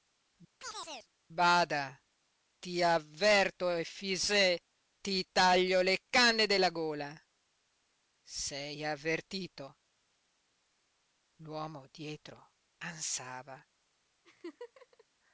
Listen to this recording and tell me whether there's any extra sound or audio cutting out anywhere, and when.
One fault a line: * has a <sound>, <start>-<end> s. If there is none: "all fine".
* has a chirp, 0.6-1.1 s
* has a laugh, 14.2-15.0 s